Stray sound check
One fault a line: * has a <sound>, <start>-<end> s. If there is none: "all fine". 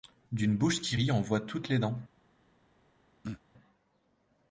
* has a throat clearing, 3.2-3.4 s